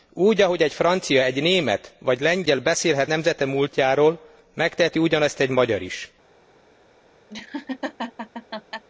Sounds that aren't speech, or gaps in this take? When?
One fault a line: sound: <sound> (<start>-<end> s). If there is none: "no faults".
sound: laugh (7.3-8.8 s)